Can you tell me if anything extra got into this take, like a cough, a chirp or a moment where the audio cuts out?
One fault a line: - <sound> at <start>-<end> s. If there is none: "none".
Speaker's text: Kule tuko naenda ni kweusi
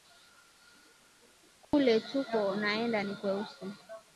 - dropout at 1.6-1.7 s